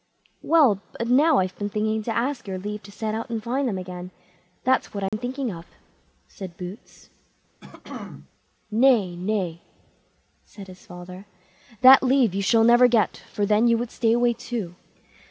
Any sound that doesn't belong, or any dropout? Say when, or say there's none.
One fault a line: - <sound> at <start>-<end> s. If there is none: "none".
- dropout at 5.1-5.1 s
- throat clearing at 7.6-8.3 s